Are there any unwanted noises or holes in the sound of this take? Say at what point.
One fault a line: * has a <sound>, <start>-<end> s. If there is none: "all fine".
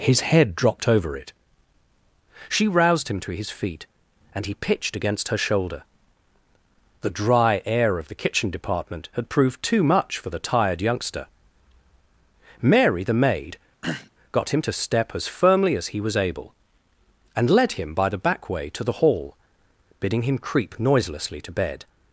* has a throat clearing, 13.8-14.1 s